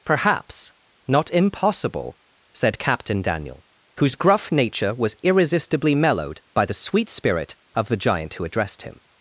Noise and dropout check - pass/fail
pass